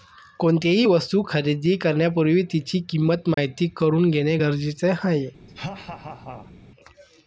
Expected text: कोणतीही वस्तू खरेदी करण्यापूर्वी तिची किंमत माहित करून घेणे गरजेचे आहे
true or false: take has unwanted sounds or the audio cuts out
true